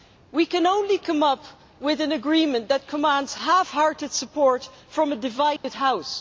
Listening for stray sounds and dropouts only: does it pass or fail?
fail